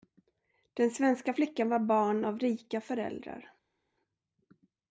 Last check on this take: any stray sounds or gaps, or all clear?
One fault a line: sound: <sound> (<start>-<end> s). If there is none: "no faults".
no faults